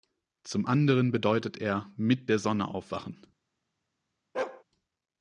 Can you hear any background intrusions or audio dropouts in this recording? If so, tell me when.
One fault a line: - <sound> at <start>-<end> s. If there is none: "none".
- bark at 4.3-4.6 s